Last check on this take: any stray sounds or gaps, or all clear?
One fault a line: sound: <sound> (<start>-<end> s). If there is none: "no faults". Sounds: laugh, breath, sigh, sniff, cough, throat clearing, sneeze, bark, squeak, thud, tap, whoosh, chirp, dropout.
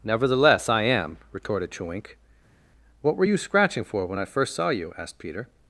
no faults